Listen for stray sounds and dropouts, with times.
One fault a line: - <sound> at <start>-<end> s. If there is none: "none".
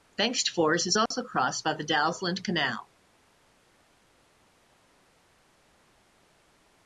- dropout at 1.1-1.1 s